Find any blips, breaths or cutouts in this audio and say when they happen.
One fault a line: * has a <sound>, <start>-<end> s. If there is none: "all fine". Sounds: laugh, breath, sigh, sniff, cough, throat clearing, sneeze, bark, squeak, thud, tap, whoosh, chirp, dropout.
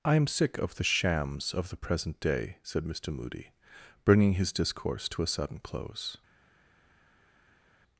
all fine